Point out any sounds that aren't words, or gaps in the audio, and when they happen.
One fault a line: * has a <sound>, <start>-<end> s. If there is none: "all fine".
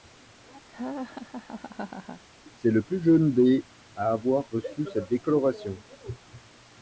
* has a laugh, 0.7-2.2 s